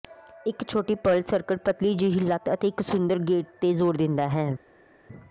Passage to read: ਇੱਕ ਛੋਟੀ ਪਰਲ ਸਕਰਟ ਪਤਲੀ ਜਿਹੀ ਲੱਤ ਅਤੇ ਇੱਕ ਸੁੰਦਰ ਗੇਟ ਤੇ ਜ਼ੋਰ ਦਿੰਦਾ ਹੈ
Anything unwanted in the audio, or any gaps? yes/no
no